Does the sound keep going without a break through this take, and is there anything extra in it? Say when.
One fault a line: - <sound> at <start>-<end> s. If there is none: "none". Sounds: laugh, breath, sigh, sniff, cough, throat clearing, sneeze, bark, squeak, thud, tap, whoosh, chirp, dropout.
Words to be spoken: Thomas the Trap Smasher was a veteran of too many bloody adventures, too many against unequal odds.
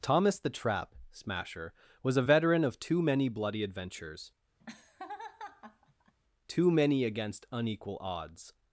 - laugh at 4.6-6.1 s